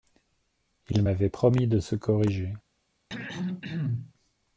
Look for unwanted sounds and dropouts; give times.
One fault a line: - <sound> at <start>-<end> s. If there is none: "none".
- throat clearing at 3.1-4.1 s